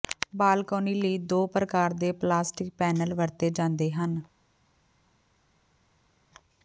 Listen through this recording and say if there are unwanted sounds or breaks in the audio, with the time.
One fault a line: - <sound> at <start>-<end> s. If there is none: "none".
none